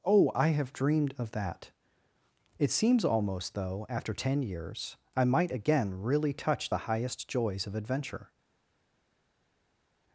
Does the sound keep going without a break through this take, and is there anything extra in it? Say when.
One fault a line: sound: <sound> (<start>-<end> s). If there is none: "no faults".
no faults